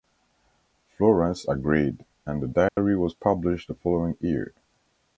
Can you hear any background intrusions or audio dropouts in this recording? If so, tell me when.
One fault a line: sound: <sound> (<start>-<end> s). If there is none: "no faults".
sound: dropout (2.7-2.8 s)